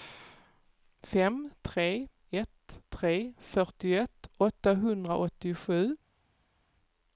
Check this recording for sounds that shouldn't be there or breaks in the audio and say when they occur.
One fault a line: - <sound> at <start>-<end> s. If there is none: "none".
none